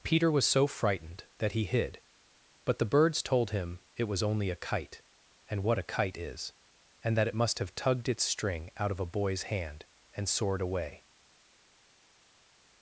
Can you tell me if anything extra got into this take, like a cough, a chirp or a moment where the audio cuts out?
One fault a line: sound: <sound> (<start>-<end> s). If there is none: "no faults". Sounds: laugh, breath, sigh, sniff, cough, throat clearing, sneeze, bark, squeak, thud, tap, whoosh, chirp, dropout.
no faults